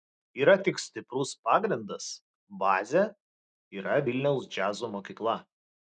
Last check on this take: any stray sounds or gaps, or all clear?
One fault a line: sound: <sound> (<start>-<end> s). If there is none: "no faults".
no faults